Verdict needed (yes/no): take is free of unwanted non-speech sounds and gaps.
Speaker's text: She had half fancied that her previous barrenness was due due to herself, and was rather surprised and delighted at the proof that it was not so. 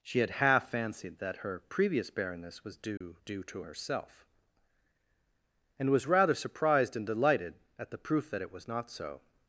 no